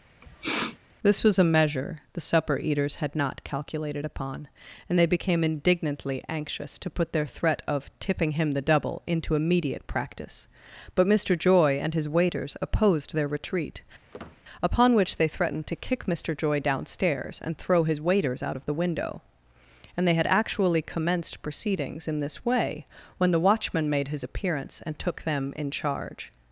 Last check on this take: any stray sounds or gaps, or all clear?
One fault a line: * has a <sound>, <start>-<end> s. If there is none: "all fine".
* has a sniff, 0.2-0.8 s
* has a squeak, 14.1-14.4 s